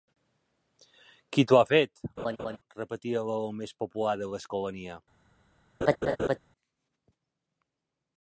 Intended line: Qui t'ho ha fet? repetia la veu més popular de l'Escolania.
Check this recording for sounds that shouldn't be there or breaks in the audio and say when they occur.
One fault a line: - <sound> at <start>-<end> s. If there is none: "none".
- laugh at 2.2-2.6 s
- laugh at 5.8-6.4 s